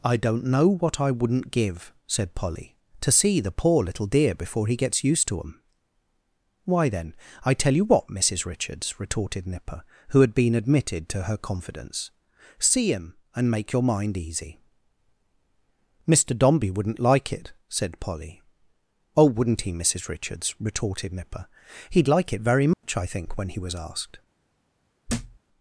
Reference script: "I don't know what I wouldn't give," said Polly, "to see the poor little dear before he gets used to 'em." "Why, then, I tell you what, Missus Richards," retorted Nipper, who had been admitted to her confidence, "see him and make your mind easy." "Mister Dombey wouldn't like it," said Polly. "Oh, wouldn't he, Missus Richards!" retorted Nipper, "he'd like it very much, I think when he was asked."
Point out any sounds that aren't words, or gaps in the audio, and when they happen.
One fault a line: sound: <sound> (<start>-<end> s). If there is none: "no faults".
sound: dropout (22.7-22.8 s)
sound: thud (25.1-25.4 s)